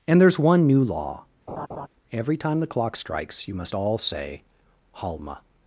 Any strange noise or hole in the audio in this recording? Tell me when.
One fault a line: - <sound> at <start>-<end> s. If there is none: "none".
- laugh at 1.5-1.9 s